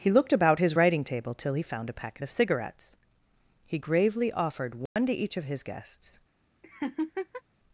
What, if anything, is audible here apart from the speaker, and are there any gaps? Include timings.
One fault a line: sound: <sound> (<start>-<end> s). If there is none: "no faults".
sound: dropout (4.9-5.0 s)
sound: laugh (6.6-7.4 s)